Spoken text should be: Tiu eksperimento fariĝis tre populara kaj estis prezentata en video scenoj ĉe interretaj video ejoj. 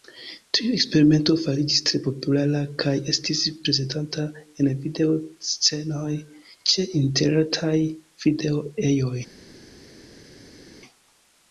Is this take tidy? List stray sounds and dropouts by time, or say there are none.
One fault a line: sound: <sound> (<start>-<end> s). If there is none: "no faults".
no faults